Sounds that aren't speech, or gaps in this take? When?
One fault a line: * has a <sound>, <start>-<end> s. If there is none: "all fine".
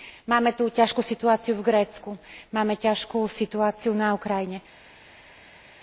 all fine